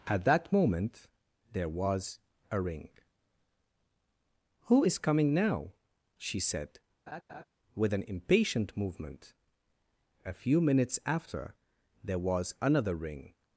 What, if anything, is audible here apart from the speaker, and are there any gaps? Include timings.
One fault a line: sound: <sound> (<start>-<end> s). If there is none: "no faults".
sound: laugh (7.1-7.4 s)